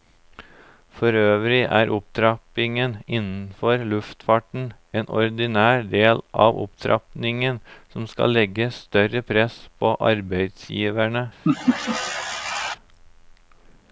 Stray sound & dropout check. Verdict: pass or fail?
fail